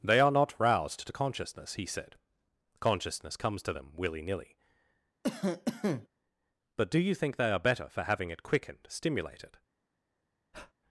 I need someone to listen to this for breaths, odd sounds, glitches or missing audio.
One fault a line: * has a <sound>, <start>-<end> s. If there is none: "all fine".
* has a cough, 5.2-6.1 s
* has a breath, 10.5-10.7 s